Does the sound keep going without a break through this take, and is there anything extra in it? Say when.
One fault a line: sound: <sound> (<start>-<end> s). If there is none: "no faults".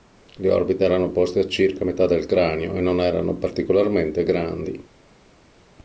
no faults